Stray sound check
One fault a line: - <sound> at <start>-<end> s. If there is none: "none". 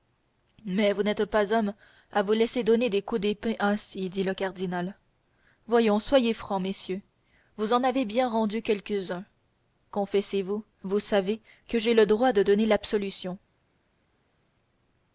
none